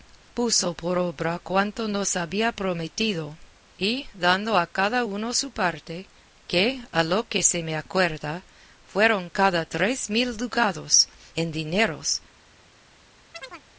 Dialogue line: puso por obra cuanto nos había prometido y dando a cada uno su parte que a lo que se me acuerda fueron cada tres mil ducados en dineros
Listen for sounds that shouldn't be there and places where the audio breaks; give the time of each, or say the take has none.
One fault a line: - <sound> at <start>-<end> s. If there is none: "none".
- chirp at 13.3-13.6 s